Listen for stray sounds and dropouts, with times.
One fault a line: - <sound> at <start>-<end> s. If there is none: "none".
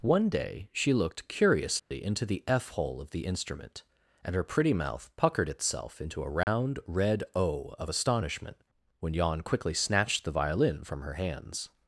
- dropout at 1.8-1.9 s
- dropout at 6.4-6.5 s